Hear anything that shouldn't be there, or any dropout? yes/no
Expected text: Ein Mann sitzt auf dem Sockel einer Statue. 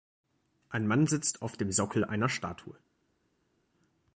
no